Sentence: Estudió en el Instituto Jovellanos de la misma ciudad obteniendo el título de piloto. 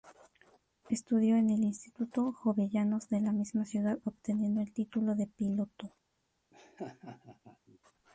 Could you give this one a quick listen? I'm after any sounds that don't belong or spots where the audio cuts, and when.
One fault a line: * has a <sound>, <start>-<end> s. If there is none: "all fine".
* has a laugh, 6.5-7.8 s